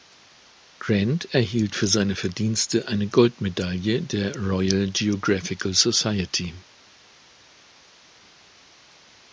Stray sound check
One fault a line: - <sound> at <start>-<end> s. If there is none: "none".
none